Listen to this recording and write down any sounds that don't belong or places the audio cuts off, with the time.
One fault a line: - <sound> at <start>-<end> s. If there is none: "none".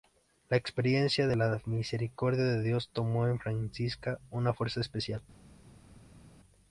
none